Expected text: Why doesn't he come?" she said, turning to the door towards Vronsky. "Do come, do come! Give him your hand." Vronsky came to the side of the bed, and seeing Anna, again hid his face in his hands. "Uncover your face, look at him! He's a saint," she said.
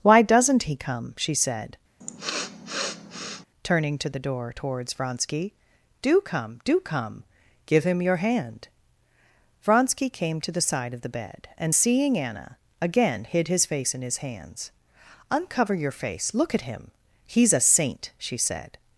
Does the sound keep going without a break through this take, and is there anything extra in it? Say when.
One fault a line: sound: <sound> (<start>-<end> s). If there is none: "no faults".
sound: sniff (2.0-3.5 s)